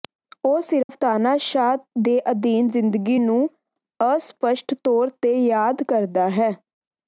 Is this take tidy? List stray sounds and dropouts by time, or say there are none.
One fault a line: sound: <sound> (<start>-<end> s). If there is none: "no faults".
sound: dropout (0.8-0.9 s)